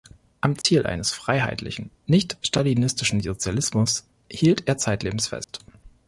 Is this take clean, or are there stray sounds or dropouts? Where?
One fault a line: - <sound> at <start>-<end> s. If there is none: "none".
- dropout at 0.6-0.6 s
- dropout at 5.4-5.5 s